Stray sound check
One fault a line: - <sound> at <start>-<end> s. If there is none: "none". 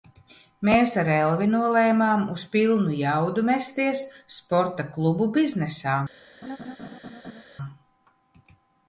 - laugh at 6.4-7.4 s